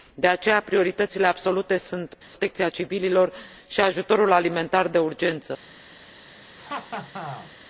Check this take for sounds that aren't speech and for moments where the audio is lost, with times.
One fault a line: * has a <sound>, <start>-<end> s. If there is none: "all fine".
* has a dropout, 2.2-2.3 s
* has a laugh, 6.6-7.5 s